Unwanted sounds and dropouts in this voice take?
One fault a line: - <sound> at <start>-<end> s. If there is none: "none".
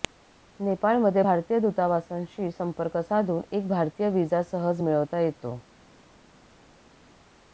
none